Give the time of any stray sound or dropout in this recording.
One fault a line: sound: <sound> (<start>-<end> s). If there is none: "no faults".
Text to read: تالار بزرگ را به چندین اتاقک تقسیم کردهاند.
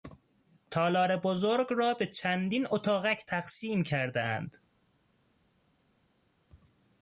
no faults